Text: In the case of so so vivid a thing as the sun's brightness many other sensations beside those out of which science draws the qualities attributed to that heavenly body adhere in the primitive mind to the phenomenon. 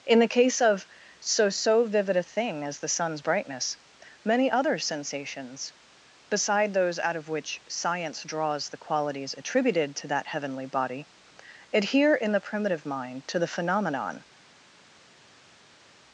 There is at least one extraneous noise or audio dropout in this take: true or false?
false